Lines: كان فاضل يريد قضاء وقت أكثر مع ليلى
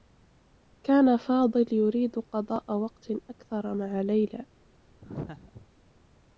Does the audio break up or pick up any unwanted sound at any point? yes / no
yes